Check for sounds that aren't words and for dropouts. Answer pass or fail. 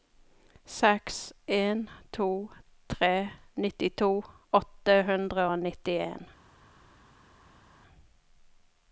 pass